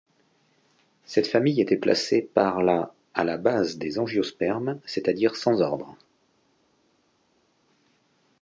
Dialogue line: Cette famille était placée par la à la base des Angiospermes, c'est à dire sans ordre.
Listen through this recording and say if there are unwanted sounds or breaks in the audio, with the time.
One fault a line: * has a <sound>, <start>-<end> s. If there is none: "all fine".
all fine